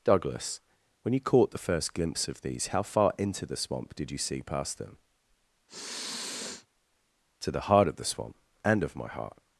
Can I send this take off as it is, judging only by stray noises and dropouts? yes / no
no